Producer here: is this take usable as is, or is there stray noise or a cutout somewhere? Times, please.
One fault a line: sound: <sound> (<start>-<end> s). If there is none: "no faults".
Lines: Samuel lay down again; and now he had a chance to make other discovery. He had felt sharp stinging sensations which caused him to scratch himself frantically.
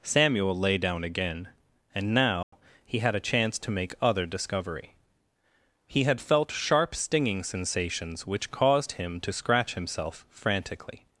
sound: dropout (2.4-2.5 s)